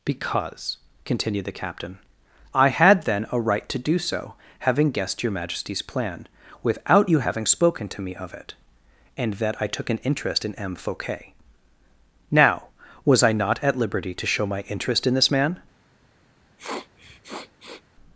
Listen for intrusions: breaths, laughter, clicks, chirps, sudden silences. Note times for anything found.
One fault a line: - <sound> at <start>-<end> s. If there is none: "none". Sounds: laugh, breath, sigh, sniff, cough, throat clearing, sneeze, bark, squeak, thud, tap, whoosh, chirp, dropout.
- sniff at 16.6-17.8 s